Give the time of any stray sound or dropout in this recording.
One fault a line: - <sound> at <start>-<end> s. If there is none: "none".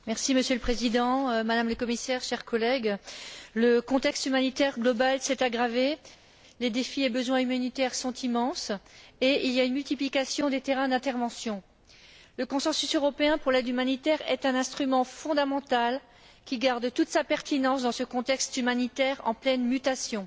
none